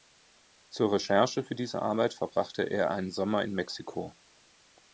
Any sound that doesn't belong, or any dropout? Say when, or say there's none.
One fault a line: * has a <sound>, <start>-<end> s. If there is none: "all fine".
all fine